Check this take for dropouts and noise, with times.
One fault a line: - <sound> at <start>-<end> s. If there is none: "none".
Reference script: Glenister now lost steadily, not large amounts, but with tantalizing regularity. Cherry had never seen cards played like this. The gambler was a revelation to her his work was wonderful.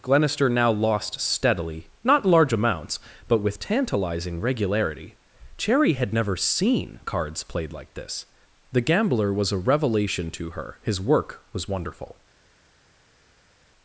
none